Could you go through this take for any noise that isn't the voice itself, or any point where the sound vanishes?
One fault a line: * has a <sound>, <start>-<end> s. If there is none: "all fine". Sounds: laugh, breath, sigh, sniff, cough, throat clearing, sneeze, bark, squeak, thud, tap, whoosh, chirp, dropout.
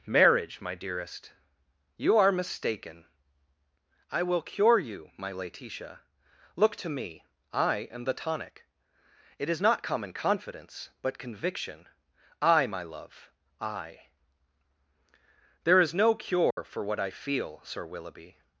* has a dropout, 16.5-16.6 s